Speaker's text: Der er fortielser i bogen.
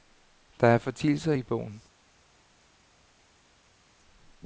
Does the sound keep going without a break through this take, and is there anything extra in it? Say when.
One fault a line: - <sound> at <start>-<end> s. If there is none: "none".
none